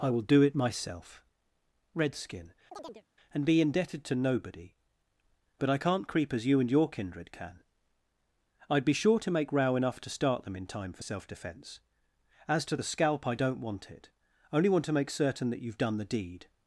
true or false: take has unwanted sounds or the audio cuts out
true